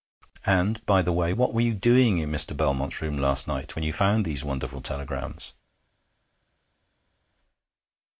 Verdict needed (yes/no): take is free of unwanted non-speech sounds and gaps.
yes